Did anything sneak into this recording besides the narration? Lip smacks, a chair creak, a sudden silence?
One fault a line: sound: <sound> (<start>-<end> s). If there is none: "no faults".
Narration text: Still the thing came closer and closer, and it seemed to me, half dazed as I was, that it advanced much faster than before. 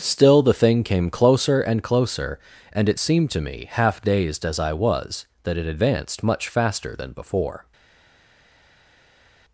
no faults